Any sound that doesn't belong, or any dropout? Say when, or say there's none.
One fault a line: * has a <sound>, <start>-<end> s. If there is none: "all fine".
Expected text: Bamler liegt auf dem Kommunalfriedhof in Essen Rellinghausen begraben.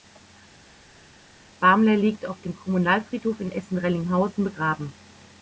all fine